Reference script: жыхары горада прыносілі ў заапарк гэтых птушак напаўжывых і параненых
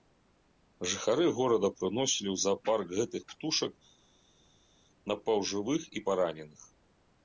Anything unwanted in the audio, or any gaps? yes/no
no